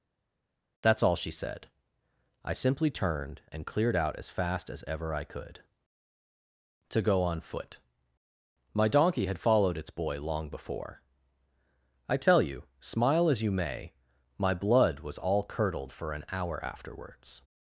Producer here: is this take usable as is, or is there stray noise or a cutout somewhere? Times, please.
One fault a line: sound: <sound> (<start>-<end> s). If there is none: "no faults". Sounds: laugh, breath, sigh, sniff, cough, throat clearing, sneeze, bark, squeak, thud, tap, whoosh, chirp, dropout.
no faults